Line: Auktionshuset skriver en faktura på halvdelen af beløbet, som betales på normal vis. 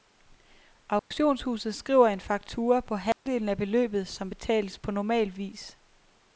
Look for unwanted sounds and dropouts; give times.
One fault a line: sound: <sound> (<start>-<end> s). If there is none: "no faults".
sound: dropout (1.0-1.1 s)
sound: dropout (3.1-3.3 s)